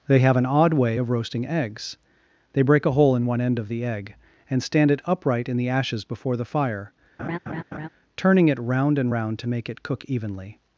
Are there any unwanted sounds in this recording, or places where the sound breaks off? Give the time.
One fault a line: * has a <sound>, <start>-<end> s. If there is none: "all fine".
* has a laugh, 7.2-7.9 s